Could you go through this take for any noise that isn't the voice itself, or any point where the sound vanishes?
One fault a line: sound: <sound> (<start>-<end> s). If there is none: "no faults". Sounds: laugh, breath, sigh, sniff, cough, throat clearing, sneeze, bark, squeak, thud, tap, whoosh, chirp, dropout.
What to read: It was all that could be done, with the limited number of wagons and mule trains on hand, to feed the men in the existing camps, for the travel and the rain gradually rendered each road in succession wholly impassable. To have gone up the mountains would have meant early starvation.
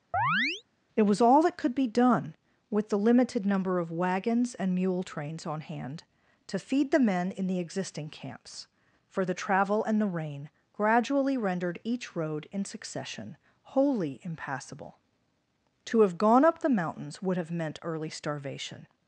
sound: chirp (0.1-0.6 s)